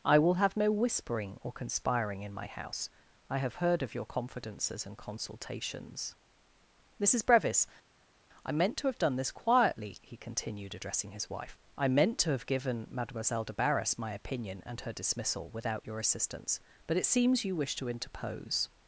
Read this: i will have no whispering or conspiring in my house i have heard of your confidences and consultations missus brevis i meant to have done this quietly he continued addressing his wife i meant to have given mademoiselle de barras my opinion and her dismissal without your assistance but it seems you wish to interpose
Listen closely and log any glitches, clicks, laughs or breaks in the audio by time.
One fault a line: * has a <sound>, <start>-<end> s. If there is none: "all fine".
all fine